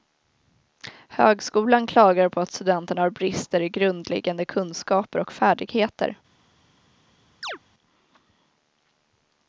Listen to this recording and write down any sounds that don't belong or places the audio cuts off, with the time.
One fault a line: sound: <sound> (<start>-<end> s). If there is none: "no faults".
sound: chirp (7.4-7.6 s)